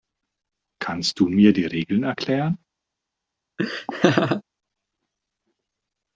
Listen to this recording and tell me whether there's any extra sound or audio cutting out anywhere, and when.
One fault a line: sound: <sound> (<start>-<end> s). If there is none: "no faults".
sound: laugh (3.6-4.4 s)